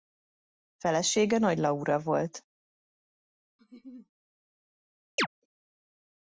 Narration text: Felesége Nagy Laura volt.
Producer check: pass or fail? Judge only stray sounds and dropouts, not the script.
fail